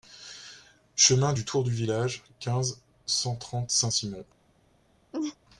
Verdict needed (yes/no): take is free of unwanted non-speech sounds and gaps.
no